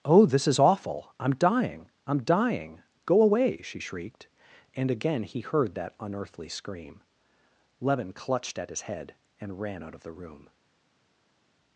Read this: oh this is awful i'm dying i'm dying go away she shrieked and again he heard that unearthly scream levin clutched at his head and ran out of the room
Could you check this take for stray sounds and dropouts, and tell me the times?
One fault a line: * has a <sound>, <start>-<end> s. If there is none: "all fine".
all fine